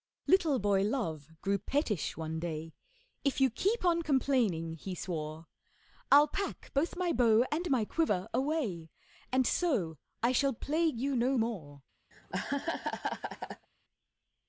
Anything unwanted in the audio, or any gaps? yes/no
yes